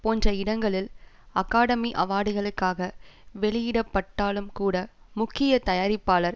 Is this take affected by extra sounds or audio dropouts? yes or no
no